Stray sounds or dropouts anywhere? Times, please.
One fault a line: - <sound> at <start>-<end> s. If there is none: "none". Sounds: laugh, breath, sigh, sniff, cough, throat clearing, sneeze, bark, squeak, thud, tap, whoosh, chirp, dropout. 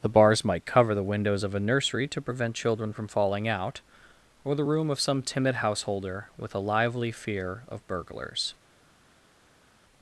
none